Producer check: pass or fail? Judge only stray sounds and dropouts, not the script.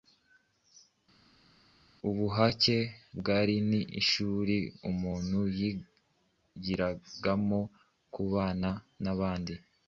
pass